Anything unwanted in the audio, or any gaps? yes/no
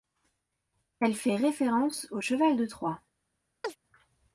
yes